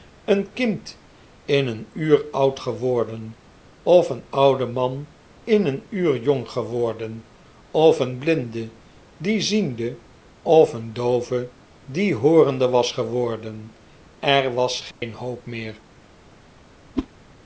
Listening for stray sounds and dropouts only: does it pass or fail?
fail